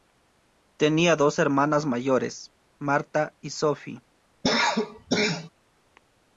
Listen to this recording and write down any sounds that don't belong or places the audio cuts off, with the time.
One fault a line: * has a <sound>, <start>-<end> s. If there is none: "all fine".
* has a cough, 4.4-5.5 s